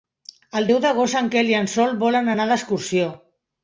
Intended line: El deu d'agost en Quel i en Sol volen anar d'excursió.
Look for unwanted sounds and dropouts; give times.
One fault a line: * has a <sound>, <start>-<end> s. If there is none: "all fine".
all fine